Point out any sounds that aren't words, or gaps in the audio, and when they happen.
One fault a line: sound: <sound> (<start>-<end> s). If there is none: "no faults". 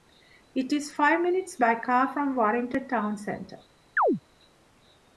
sound: chirp (4.0-4.2 s)